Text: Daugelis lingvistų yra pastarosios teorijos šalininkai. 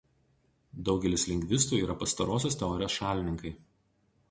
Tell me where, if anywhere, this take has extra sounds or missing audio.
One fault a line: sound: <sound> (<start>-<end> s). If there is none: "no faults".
no faults